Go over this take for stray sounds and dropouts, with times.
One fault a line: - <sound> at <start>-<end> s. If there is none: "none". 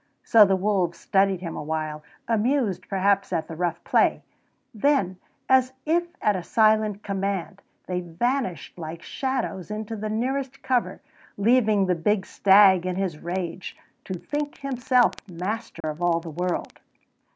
- dropout at 15.8-15.8 s